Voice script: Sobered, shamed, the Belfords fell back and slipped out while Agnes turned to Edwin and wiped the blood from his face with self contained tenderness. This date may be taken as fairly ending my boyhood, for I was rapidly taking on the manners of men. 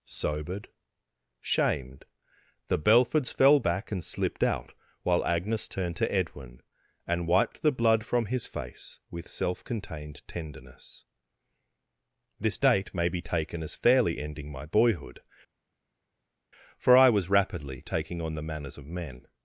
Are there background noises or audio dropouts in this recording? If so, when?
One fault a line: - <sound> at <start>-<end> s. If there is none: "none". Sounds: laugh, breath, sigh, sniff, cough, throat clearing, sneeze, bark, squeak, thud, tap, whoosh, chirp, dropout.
none